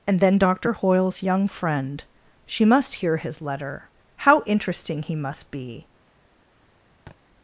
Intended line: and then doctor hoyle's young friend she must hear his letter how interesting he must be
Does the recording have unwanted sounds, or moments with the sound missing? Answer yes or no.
yes